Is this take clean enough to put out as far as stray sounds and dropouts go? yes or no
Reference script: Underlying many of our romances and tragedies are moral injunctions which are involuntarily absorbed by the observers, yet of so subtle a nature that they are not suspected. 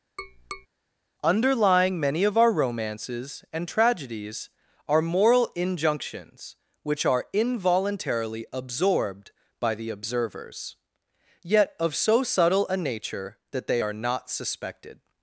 no